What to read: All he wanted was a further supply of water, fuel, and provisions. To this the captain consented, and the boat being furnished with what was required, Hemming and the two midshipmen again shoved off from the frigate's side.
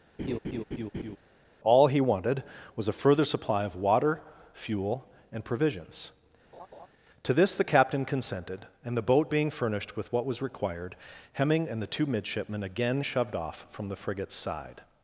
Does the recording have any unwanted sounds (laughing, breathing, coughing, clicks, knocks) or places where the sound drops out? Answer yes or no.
yes